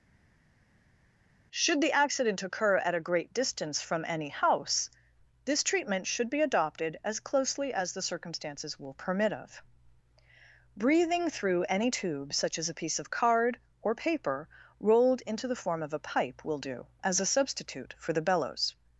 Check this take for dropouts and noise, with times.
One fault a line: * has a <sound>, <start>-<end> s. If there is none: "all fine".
all fine